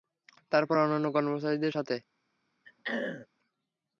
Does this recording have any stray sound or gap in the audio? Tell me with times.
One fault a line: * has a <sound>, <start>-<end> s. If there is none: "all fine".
* has a throat clearing, 2.6-3.3 s